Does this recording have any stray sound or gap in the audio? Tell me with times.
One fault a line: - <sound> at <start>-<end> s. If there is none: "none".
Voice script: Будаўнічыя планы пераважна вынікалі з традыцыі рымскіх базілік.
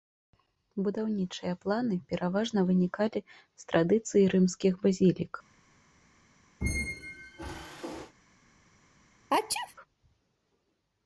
- squeak at 6.6-8.1 s
- sneeze at 9.3-9.8 s